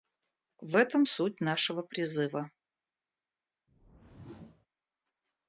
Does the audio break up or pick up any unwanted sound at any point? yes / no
yes